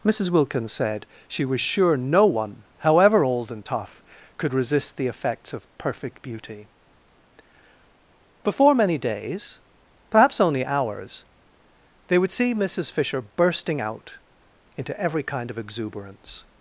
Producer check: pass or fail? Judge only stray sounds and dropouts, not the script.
pass